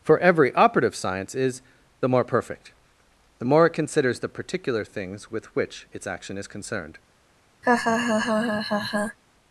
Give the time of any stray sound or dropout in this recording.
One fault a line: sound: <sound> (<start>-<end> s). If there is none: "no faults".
sound: laugh (7.6-9.2 s)